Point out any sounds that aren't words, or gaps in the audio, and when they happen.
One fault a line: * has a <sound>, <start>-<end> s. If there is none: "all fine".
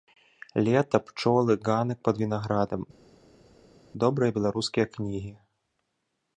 all fine